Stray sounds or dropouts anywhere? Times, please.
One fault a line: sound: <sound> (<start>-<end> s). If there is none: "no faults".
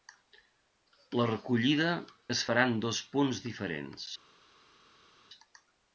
no faults